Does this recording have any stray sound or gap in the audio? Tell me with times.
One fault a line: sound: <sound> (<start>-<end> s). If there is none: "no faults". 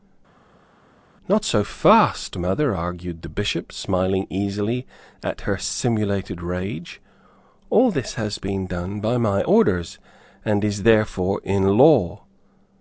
no faults